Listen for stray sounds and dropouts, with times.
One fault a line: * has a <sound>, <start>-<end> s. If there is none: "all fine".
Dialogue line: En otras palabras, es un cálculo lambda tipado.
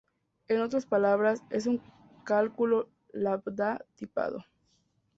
all fine